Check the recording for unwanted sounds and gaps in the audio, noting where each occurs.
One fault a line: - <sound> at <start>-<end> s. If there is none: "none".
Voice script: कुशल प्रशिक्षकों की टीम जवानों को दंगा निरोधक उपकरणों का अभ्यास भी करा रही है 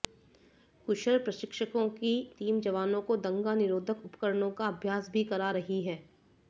none